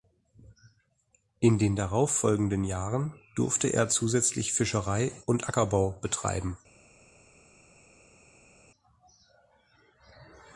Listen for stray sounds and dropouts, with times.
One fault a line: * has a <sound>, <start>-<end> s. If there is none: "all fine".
all fine